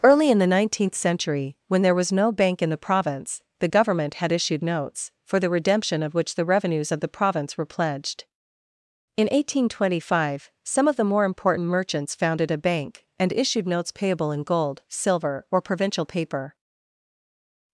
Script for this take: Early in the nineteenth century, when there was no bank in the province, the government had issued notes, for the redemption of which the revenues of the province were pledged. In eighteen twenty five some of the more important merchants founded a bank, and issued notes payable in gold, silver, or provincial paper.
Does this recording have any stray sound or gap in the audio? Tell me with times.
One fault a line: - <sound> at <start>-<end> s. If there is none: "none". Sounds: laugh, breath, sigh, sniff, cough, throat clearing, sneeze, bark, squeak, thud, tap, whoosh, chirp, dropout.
none